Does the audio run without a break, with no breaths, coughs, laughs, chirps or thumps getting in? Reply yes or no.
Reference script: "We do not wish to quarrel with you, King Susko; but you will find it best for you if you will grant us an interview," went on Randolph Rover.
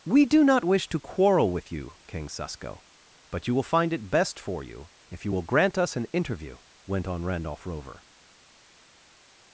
yes